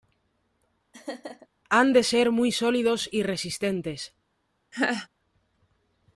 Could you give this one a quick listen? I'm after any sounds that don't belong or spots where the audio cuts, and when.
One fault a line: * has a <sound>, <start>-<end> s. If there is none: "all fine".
* has a laugh, 0.9-1.5 s
* has a laugh, 4.7-5.1 s